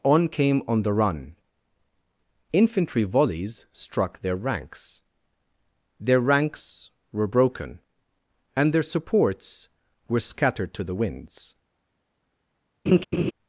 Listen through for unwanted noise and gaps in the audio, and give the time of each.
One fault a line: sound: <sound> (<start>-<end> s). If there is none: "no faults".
sound: laugh (12.9-13.3 s)